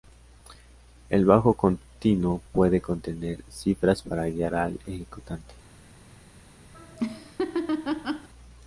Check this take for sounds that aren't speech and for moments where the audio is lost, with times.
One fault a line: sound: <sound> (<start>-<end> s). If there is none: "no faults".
sound: laugh (6.7-8.3 s)